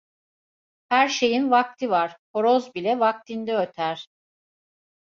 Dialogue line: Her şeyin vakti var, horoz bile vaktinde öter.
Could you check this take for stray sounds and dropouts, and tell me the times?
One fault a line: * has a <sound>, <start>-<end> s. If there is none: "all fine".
all fine